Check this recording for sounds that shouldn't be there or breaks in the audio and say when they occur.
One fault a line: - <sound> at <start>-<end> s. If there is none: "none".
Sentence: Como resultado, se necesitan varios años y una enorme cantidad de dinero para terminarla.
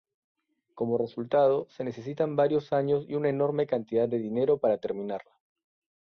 none